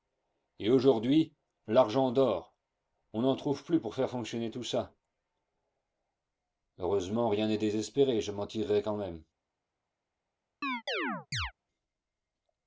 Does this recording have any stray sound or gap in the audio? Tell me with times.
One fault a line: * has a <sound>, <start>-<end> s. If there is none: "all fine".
* has a chirp, 10.6-11.5 s